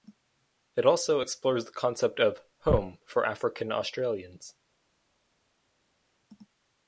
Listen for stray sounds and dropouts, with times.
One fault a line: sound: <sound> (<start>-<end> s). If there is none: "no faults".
no faults